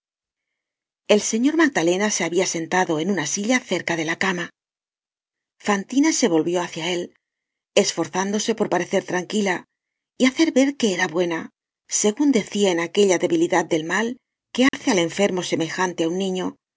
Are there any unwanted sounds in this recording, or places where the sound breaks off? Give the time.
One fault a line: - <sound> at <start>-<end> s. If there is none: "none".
- dropout at 14.7-14.7 s